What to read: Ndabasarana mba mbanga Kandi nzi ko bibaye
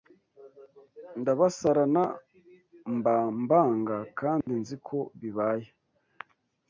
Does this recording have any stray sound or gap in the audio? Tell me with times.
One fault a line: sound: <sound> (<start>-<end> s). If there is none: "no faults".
sound: dropout (4.4-4.5 s)